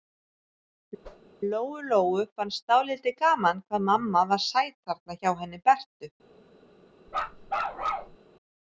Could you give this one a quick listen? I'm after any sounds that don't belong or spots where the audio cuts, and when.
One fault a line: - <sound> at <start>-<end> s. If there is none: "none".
- whoosh at 1.0-1.3 s
- bark at 7.1-8.2 s